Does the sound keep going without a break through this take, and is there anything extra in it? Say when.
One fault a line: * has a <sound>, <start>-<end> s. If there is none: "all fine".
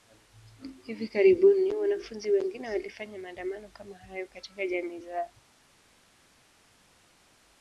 all fine